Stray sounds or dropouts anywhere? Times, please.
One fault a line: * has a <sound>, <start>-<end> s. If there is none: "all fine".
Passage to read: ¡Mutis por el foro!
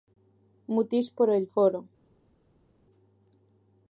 all fine